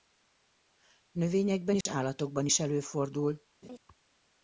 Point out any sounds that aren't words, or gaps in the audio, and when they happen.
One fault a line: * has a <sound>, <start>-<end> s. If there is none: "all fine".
* has a dropout, 1.8-1.9 s
* has a laugh, 3.6-3.8 s